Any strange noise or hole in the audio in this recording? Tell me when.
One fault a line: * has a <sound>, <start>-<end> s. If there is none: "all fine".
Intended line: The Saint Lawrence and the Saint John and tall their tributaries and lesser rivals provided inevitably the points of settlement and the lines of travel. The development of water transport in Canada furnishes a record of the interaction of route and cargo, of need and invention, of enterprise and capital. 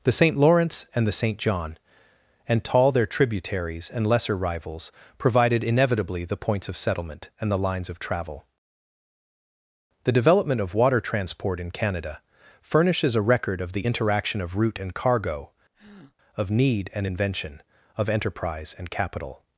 * has a breath, 15.7-16.2 s